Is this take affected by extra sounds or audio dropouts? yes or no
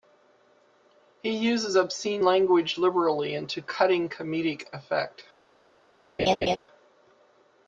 yes